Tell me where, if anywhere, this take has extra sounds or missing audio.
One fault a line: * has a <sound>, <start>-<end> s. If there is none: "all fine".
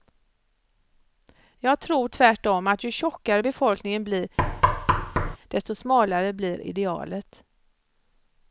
* has a thud, 4.4-5.4 s